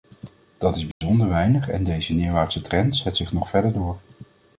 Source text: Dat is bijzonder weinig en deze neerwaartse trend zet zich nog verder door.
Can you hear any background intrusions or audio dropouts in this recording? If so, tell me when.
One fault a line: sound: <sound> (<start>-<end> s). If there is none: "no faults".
sound: dropout (0.9-1.0 s)